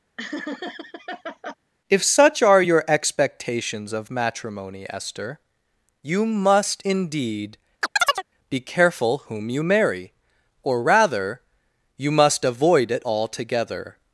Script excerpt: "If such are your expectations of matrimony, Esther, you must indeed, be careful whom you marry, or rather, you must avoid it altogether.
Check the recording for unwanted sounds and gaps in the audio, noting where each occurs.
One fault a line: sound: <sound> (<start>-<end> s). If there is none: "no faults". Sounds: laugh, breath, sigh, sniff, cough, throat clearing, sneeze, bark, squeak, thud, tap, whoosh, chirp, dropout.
sound: laugh (0.2-1.5 s)
sound: chirp (7.8-8.2 s)